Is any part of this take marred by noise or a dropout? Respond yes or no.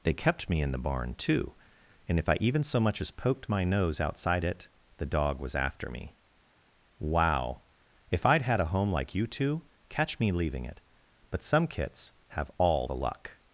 no